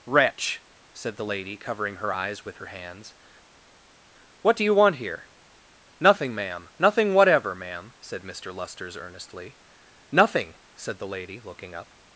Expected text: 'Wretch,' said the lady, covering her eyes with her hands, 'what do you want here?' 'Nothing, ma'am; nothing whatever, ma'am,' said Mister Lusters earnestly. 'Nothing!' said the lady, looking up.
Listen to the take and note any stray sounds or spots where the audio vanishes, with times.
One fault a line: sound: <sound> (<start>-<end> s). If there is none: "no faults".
no faults